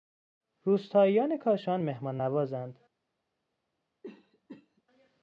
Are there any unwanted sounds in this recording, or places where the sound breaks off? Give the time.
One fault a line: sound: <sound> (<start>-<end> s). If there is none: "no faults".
sound: cough (4.0-4.8 s)